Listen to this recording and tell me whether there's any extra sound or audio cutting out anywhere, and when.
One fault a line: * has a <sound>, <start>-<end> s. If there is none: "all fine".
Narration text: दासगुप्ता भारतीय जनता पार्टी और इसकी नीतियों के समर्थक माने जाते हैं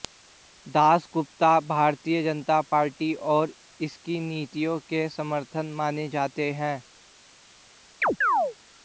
* has a chirp, 8.0-8.6 s